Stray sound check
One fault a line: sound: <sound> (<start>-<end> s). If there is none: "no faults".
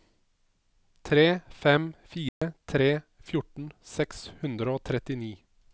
sound: dropout (2.3-2.4 s)